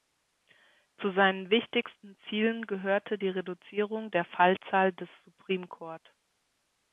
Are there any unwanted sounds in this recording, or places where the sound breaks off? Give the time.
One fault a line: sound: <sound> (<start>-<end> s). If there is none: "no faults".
no faults